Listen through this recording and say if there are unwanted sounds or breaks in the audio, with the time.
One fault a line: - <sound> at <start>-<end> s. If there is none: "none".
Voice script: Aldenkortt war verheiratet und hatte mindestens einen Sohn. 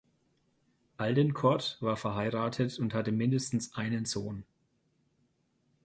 none